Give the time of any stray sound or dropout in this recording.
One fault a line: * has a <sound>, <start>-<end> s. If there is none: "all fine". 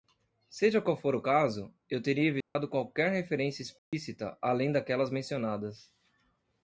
* has a dropout, 2.4-2.6 s
* has a dropout, 3.8-3.9 s